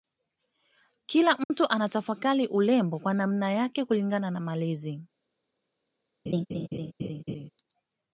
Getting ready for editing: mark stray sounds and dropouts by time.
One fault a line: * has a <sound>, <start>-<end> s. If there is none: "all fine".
* has a dropout, 1.4-1.5 s
* has a laugh, 6.3-7.5 s